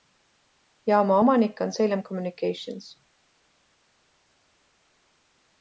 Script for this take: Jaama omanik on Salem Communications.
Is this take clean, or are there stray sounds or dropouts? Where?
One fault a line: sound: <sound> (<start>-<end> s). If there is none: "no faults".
no faults